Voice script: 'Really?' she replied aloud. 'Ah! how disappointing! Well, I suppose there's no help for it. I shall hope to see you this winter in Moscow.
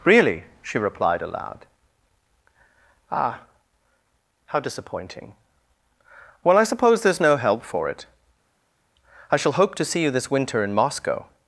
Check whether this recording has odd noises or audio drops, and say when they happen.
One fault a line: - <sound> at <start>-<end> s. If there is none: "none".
none